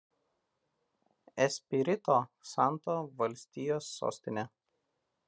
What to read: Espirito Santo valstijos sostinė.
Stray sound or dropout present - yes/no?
no